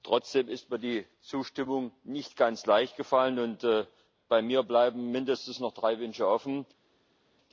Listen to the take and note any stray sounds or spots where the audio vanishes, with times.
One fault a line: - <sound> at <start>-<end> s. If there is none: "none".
none